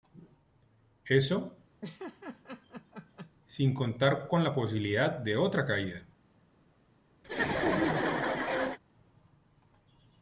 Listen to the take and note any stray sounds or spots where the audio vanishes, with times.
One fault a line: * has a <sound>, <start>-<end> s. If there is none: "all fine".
* has a laugh, 1.8-3.3 s
* has a laugh, 7.2-8.8 s